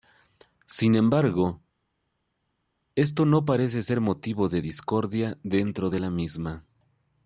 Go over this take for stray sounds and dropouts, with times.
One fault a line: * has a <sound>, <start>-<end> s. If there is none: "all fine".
all fine